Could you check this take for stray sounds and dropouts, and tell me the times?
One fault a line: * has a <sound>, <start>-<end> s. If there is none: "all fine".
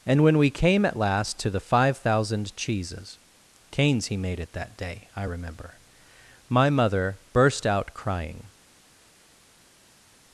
all fine